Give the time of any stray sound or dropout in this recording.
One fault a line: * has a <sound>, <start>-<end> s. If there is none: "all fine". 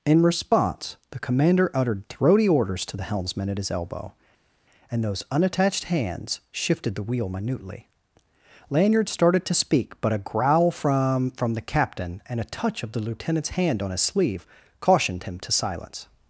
all fine